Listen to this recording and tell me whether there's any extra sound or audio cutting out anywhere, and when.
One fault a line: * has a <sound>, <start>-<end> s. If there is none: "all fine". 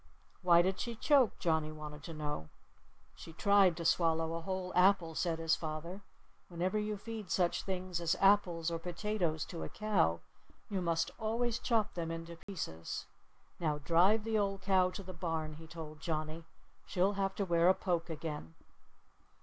* has a dropout, 12.4-12.5 s